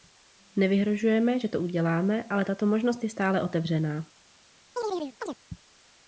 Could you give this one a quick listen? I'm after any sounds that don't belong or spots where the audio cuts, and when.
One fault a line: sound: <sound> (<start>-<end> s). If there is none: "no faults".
sound: chirp (4.8-5.4 s)